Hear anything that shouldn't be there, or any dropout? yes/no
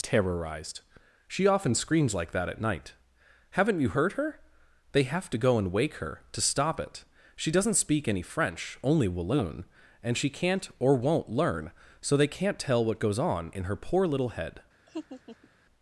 yes